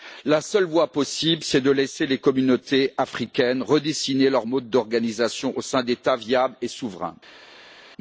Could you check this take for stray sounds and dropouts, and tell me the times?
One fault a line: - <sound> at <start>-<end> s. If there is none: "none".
none